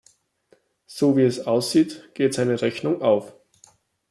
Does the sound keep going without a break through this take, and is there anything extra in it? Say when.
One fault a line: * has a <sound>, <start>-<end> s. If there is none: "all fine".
all fine